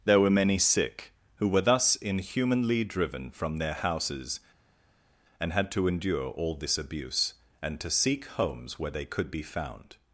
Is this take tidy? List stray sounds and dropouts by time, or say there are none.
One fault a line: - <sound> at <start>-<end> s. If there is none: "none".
none